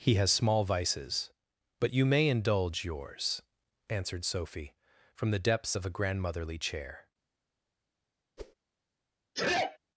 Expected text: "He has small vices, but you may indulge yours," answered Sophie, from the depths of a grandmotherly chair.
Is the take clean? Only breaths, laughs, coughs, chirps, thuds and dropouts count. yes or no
no